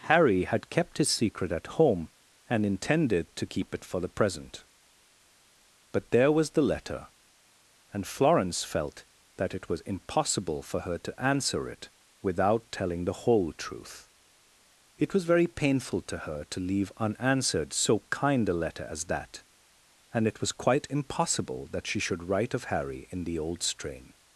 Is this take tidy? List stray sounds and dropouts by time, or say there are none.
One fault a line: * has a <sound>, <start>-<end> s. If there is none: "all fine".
all fine